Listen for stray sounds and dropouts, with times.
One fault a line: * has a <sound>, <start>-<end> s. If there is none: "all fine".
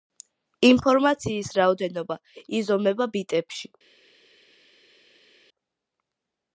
all fine